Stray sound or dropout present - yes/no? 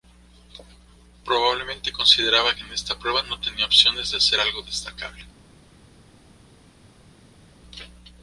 no